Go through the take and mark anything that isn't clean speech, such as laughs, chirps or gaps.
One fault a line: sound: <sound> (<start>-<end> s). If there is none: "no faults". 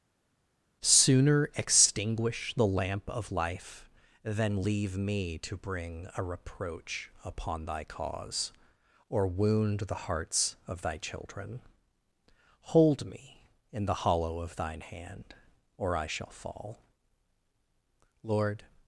no faults